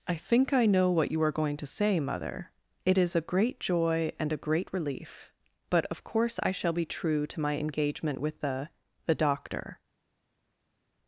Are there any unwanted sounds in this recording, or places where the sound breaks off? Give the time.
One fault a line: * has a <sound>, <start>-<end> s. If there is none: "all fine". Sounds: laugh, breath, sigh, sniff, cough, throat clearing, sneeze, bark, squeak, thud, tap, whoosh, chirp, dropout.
all fine